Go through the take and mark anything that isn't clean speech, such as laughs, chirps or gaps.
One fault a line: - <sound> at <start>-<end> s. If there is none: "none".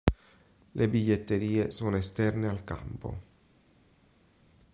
none